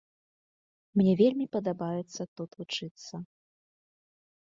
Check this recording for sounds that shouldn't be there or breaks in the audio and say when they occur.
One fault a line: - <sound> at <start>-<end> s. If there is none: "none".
none